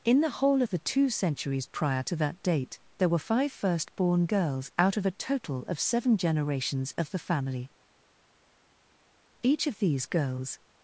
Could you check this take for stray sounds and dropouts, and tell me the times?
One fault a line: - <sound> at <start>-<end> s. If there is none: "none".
none